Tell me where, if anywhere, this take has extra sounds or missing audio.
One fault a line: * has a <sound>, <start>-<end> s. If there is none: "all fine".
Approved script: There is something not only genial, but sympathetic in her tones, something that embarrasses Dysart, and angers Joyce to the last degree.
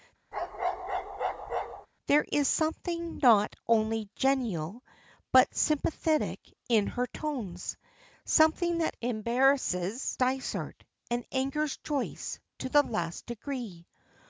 * has a bark, 0.3-1.9 s